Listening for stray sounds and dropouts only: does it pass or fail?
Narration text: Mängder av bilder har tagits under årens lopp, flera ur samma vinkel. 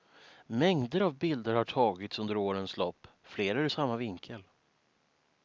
pass